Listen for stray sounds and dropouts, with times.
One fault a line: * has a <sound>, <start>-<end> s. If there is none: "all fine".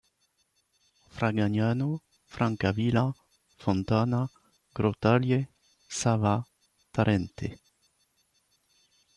all fine